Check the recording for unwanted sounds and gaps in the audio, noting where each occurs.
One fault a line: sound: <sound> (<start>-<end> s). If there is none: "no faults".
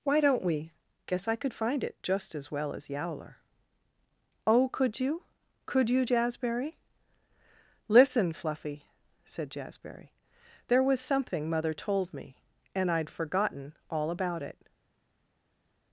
no faults